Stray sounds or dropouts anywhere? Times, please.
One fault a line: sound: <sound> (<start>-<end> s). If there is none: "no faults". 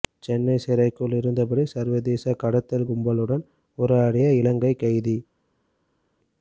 no faults